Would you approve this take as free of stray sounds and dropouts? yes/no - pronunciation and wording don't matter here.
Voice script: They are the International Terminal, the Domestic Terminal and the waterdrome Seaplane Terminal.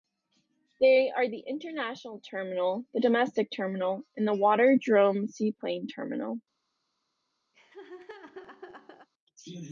no